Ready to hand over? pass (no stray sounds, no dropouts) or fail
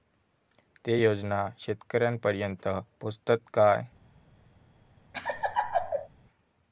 fail